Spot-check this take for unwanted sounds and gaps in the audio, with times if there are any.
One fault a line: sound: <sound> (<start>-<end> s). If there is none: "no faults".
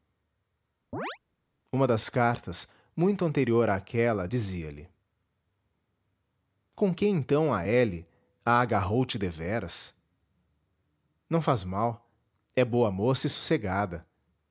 sound: chirp (0.9-1.2 s)